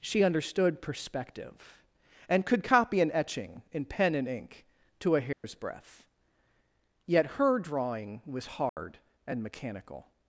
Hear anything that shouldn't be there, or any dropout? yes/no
yes